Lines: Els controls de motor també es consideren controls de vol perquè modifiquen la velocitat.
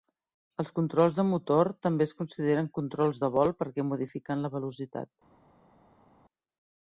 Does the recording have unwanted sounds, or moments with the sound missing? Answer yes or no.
no